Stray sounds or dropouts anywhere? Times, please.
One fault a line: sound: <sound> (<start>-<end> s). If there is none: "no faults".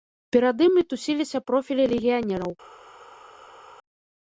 no faults